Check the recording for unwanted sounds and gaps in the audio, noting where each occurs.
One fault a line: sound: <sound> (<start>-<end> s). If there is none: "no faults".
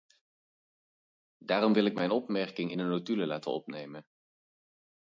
no faults